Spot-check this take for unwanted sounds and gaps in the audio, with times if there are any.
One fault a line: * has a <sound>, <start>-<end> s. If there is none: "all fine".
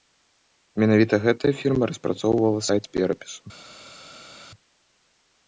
all fine